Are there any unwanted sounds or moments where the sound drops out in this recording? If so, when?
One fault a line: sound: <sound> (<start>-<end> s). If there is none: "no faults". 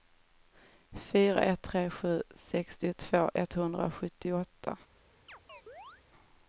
sound: chirp (5.3-6.0 s)